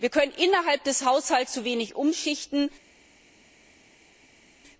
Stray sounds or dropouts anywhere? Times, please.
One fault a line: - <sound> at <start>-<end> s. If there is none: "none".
none